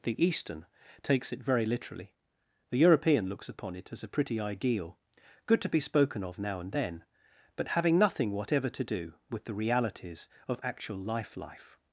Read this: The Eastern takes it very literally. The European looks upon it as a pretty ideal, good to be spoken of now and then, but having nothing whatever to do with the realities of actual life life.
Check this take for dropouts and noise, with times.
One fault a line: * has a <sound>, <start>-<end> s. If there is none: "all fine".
all fine